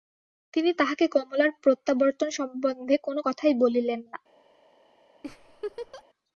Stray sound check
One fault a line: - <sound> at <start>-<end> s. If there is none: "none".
- laugh at 5.2-6.0 s